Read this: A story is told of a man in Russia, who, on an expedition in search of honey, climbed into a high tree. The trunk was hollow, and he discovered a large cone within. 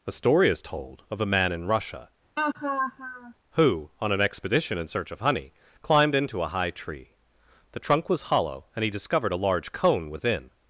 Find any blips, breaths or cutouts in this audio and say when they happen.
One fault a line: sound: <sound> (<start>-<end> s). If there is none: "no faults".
sound: laugh (2.4-3.3 s)